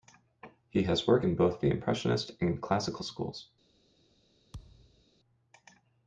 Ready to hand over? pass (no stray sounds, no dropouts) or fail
fail